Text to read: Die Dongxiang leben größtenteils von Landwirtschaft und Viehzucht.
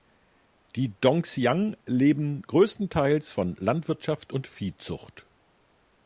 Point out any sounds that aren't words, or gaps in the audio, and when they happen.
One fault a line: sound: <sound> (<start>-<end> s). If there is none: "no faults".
no faults